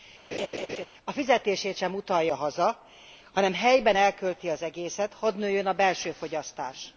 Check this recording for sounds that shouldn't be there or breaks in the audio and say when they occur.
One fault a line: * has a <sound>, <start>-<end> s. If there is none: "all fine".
* has a laugh, 0.3-0.9 s